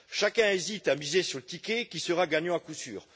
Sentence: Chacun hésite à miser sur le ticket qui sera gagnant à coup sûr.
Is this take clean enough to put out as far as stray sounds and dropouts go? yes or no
yes